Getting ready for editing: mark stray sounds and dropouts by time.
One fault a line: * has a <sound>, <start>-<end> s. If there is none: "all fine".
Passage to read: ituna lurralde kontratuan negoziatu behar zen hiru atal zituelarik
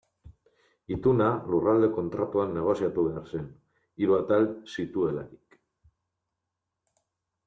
all fine